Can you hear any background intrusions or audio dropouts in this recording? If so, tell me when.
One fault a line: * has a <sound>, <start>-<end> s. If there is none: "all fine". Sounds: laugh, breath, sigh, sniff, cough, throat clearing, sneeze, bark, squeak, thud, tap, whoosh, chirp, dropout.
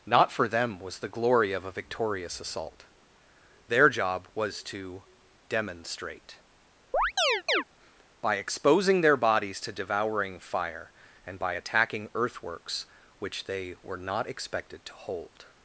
* has a chirp, 6.9-7.6 s